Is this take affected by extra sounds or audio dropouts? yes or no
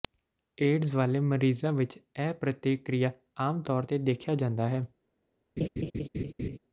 yes